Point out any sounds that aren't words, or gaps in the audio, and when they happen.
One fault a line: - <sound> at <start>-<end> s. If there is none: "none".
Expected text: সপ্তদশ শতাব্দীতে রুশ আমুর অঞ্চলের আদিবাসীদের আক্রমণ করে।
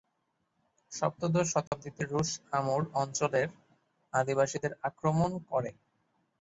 - dropout at 1.7-1.7 s